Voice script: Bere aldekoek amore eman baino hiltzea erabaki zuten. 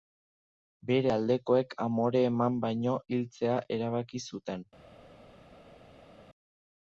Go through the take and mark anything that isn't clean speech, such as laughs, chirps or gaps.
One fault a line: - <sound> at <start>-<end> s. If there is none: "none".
none